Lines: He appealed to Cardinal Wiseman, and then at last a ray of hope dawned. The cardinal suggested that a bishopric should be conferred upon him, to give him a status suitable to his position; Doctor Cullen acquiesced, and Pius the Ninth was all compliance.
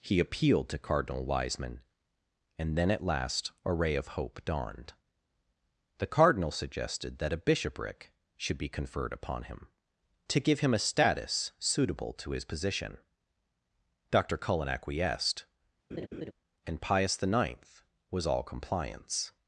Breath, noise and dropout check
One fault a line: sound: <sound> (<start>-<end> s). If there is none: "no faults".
sound: laugh (15.9-16.3 s)